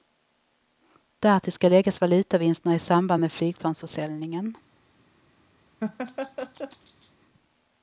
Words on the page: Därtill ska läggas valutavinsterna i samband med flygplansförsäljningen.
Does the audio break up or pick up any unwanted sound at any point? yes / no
yes